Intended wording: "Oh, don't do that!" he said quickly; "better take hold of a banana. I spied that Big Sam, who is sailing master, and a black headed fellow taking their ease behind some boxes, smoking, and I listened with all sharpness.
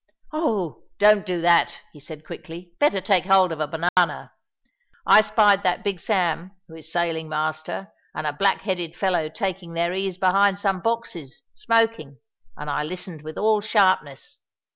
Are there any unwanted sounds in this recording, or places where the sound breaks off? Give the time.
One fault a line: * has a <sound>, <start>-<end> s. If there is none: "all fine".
* has a dropout, 3.9-4.0 s